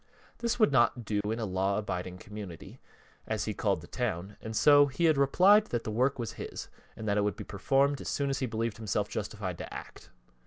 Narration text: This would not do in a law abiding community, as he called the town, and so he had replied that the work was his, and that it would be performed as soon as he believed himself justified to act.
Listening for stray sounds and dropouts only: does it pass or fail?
fail